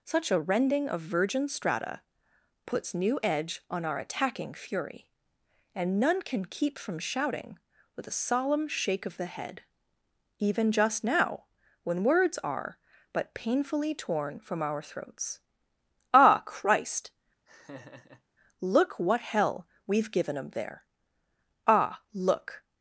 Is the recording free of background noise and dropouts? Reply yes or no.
no